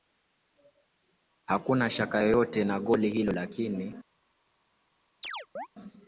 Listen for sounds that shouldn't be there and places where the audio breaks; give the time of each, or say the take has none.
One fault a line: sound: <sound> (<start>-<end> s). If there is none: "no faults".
sound: chirp (5.2-5.7 s)